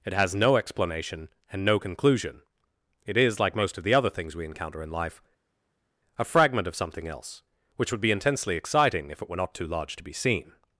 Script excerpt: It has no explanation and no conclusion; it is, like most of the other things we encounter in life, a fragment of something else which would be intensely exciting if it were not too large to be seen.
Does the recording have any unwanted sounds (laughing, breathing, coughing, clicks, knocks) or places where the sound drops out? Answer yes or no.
no